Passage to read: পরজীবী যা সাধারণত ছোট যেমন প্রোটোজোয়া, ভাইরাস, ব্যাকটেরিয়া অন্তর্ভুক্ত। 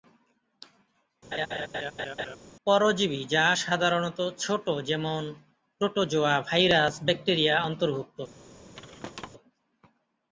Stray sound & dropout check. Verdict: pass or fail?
fail